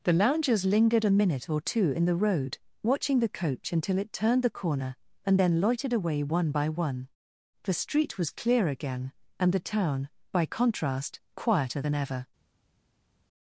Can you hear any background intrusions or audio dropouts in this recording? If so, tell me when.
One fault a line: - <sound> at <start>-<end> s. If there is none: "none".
none